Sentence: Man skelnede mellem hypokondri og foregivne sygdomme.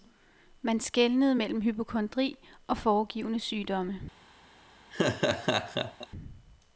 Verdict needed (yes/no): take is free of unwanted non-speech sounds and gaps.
no